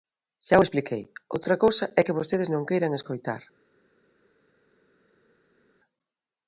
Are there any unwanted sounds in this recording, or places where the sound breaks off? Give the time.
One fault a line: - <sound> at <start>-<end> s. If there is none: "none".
none